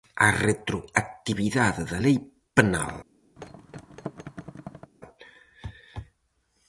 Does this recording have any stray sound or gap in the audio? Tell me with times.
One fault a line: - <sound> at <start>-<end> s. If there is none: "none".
- thud at 3.4-4.9 s